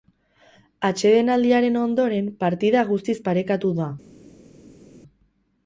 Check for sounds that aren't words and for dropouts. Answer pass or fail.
pass